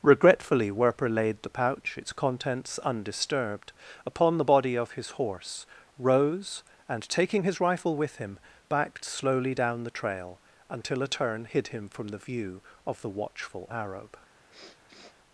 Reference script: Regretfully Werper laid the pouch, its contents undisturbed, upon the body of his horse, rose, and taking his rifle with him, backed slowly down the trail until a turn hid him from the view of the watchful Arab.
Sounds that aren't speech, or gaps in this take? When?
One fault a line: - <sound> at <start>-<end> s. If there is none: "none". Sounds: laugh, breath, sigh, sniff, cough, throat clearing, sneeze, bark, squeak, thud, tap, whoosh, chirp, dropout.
- sniff at 14.5-15.2 s